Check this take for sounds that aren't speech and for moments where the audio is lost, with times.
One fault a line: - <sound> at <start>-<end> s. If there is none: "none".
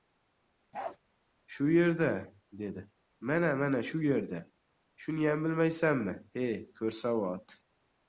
- bark at 0.7-1.0 s